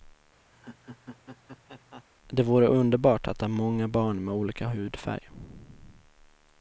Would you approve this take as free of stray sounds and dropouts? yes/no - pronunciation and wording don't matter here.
no